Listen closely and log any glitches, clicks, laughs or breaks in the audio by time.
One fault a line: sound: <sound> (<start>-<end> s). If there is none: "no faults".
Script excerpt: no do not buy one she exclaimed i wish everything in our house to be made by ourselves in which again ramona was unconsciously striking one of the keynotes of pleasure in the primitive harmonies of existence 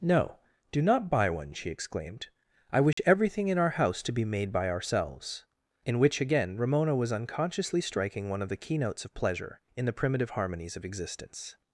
sound: dropout (2.9-3.0 s)